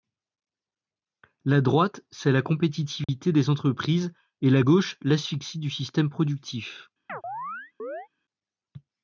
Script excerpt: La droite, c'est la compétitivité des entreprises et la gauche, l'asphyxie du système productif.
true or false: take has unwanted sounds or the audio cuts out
true